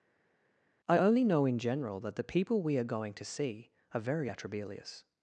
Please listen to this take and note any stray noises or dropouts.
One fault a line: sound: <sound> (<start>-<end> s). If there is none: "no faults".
no faults